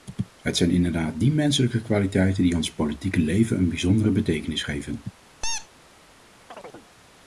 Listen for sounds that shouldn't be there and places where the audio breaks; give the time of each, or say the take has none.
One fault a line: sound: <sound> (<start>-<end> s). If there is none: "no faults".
sound: squeak (5.4-5.7 s)
sound: chirp (6.5-6.9 s)